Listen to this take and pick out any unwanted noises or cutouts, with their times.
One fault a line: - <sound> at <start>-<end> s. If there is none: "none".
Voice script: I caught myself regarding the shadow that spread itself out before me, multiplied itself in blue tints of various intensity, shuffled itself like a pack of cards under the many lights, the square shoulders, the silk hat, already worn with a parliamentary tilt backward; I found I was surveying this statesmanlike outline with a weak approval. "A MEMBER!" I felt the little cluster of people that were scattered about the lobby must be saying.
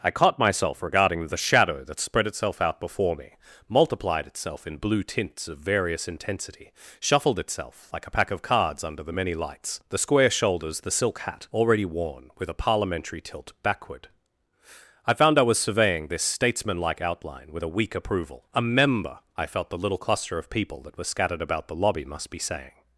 none